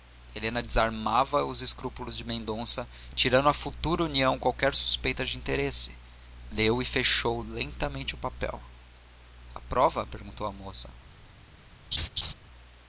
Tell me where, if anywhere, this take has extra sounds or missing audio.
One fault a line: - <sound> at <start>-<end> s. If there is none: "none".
- laugh at 11.9-12.3 s